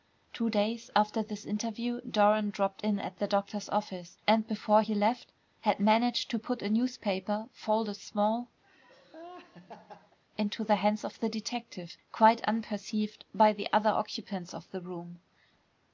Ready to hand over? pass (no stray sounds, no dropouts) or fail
fail